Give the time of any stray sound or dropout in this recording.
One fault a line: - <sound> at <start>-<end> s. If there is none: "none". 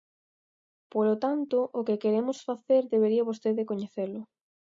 none